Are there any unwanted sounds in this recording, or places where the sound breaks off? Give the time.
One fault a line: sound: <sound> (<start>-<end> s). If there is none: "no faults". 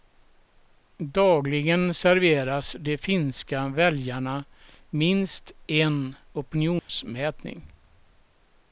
sound: dropout (6.8-6.9 s)